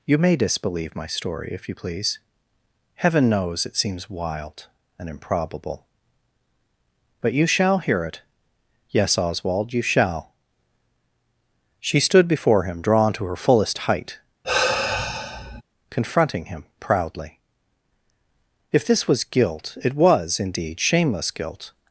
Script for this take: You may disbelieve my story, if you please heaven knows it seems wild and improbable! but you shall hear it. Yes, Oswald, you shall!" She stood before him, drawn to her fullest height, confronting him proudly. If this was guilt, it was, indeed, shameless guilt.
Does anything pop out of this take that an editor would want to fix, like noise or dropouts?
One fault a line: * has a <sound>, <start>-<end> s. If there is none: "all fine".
* has a sigh, 14.4-15.6 s